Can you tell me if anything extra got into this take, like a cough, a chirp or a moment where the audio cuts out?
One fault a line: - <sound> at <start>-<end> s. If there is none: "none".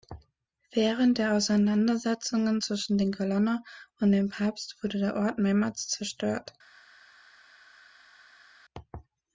none